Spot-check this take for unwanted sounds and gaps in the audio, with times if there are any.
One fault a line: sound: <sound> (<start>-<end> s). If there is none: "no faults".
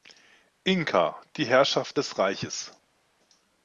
no faults